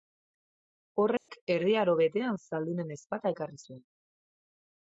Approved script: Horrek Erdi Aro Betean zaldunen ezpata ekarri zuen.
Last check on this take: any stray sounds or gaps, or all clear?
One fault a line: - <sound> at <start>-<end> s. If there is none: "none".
- dropout at 1.2-1.3 s